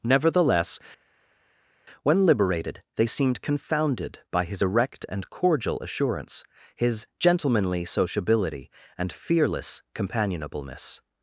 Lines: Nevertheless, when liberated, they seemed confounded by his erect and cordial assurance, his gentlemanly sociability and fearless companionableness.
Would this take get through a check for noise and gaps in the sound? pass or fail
pass